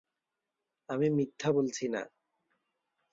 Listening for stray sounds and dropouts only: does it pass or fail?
pass